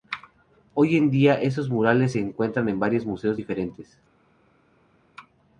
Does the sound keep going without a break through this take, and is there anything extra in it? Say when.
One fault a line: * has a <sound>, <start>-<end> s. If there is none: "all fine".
all fine